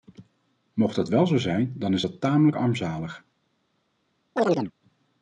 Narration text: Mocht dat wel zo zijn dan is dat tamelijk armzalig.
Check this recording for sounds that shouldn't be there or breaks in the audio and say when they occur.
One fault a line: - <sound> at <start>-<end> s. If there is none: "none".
- chirp at 4.4-4.7 s